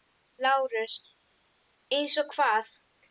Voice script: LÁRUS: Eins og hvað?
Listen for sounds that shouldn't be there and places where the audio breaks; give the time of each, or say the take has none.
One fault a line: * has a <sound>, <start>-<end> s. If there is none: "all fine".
all fine